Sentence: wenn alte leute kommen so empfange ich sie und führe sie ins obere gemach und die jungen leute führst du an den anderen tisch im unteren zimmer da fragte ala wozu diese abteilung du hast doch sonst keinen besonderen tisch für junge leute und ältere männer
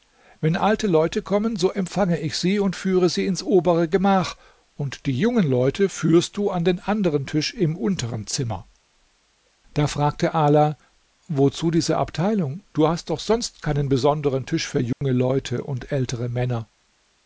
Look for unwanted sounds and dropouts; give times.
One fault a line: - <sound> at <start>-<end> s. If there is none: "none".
- dropout at 14.9-15.0 s